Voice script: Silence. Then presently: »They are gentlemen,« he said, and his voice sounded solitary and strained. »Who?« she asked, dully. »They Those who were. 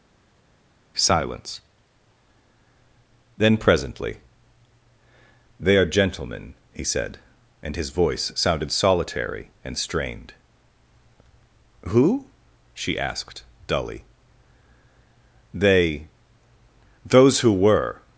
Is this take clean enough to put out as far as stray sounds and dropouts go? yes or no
yes